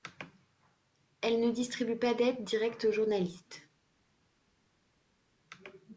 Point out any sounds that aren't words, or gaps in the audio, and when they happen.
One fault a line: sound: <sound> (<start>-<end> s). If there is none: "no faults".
no faults